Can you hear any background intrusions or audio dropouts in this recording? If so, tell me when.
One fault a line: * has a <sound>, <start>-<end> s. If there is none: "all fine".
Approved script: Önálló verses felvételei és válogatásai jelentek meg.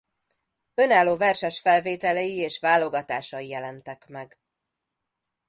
all fine